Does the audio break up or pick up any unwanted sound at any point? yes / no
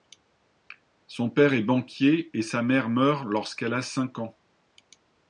no